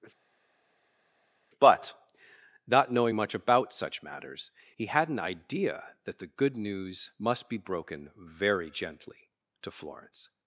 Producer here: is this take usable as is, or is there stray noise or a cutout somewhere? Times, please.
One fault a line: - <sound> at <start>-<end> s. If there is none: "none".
none